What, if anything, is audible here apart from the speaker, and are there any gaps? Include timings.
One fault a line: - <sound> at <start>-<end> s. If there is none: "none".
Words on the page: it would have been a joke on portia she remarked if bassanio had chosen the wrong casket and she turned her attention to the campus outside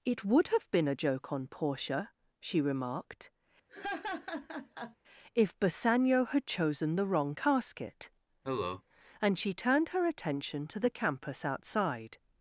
- laugh at 3.7-5.0 s
- cough at 8.4-8.8 s